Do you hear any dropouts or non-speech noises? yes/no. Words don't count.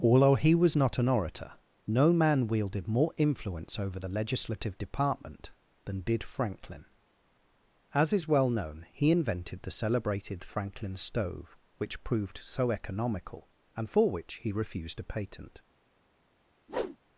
yes